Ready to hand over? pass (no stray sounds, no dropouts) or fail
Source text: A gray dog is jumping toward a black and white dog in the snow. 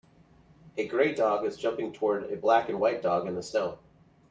pass